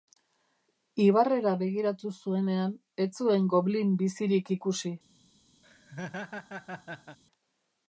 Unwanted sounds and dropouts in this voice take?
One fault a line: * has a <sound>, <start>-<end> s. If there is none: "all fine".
* has a laugh, 5.6-7.2 s